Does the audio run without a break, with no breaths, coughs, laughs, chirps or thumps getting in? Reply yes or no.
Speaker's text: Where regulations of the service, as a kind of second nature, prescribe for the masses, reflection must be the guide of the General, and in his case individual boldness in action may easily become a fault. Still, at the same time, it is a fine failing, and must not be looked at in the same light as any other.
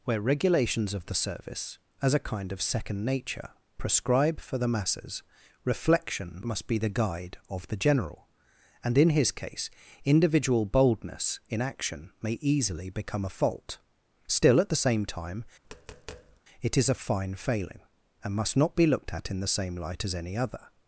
no